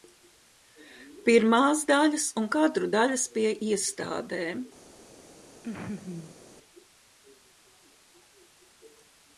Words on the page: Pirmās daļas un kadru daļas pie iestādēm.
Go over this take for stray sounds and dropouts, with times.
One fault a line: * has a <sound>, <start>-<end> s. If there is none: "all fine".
* has a laugh, 5.6-6.4 s